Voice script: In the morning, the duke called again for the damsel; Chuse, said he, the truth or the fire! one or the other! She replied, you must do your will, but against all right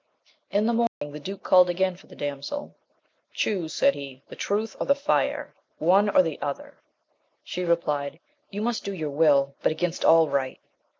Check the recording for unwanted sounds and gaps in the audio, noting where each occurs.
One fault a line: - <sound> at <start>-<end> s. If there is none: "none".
- dropout at 0.9-1.0 s